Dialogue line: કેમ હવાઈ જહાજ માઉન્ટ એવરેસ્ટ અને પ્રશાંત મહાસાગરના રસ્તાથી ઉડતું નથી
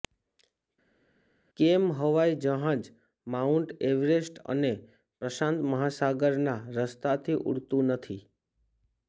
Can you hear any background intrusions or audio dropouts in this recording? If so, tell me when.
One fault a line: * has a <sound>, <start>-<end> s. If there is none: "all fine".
all fine